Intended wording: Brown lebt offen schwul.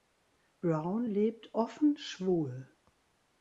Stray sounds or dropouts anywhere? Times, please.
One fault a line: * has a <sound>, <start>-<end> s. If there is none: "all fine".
all fine